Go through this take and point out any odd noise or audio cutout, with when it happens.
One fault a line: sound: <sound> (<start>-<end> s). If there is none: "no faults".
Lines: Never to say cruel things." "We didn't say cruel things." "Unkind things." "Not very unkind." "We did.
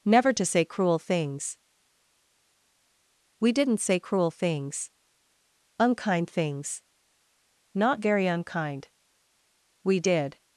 no faults